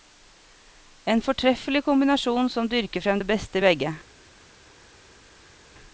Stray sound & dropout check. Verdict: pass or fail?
pass